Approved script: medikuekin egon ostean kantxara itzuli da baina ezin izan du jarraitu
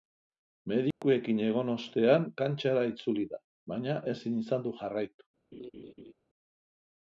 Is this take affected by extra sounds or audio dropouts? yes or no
yes